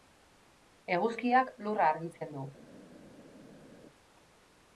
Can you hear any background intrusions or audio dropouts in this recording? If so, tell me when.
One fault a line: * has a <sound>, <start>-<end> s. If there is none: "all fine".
all fine